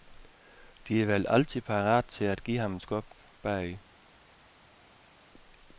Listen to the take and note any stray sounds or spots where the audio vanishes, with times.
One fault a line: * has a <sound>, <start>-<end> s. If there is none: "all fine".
all fine